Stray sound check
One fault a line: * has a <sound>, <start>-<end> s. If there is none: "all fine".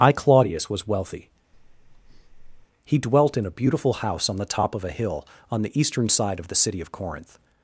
* has a breath, 1.5-2.7 s